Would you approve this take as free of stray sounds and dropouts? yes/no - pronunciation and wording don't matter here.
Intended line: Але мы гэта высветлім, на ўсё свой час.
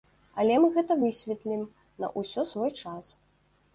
yes